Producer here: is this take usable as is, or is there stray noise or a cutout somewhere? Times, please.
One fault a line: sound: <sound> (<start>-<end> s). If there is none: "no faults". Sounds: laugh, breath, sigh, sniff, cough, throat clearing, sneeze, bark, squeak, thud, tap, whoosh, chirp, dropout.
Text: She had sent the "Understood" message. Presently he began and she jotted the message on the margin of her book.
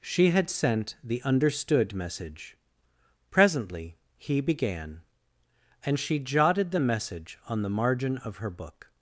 no faults